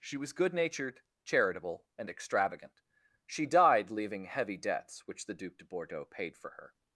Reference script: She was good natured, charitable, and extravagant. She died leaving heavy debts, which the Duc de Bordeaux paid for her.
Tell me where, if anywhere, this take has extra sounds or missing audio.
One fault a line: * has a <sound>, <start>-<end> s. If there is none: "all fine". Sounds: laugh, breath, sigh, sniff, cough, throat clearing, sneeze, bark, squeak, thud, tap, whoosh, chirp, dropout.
all fine